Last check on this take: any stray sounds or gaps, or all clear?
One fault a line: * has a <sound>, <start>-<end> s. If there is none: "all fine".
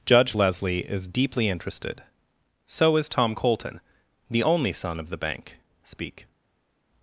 all fine